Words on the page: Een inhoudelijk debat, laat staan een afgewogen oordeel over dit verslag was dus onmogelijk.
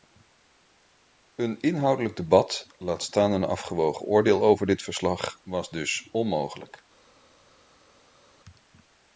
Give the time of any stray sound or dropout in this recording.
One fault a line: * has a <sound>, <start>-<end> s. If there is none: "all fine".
all fine